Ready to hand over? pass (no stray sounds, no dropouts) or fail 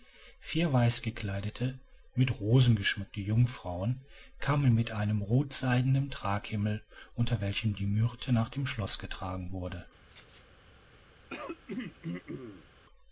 fail